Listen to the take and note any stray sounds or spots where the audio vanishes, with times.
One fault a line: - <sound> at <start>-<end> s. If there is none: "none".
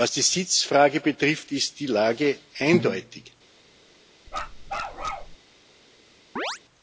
- bark at 4.3-5.4 s
- chirp at 6.4-6.6 s